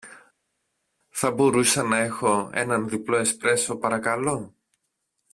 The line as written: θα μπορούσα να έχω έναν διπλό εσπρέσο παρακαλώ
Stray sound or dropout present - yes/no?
no